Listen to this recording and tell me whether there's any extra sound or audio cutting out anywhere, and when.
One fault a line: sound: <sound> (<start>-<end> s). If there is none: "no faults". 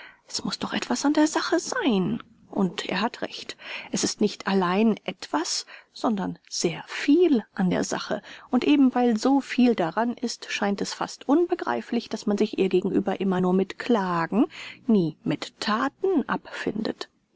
no faults